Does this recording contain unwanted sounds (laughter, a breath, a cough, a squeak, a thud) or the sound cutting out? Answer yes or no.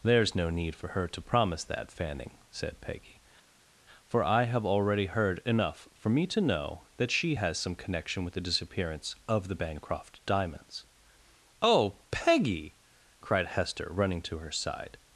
no